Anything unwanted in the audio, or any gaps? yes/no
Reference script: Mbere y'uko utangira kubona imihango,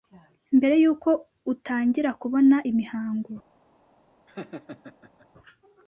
yes